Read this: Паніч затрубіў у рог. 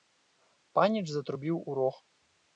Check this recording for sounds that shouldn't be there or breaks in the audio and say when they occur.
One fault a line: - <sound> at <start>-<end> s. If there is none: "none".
none